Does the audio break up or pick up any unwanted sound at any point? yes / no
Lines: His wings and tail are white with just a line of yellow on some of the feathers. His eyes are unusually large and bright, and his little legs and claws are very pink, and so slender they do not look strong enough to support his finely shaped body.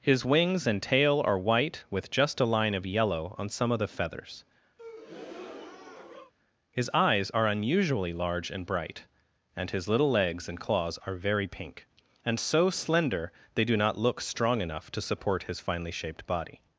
yes